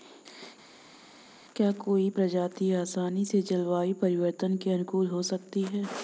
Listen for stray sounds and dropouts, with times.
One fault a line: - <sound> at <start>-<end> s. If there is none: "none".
none